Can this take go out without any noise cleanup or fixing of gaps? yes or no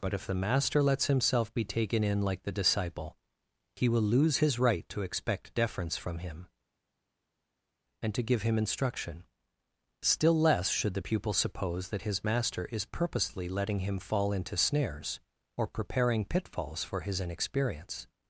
yes